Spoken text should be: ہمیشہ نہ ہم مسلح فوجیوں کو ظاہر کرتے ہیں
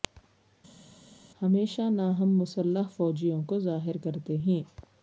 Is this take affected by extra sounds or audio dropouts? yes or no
no